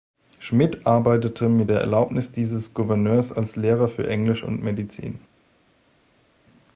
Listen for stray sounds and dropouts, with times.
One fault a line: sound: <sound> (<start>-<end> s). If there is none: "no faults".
no faults